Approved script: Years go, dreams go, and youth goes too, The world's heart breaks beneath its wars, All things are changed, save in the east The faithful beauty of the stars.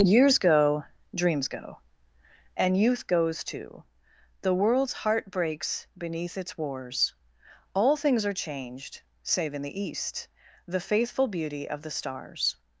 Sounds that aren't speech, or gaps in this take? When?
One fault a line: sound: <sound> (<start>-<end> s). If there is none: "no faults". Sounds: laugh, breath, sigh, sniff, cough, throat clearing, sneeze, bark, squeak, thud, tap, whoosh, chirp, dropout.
no faults